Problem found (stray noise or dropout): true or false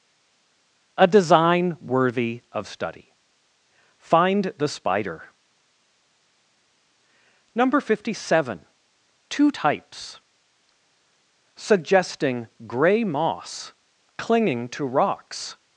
false